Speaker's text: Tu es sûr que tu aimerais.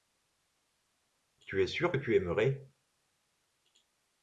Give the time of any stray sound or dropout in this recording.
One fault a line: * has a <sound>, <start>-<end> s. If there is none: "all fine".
all fine